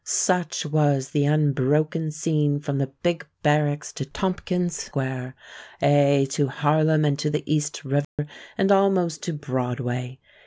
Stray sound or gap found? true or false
true